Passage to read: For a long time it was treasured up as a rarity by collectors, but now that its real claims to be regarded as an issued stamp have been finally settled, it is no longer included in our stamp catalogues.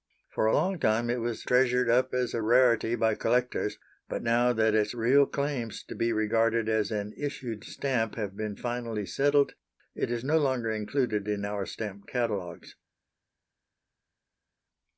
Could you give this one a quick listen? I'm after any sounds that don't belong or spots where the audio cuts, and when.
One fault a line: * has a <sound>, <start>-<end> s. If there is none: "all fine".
all fine